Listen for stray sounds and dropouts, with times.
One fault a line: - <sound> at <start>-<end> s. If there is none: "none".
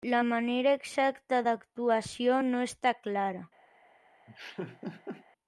- laugh at 4.3-5.3 s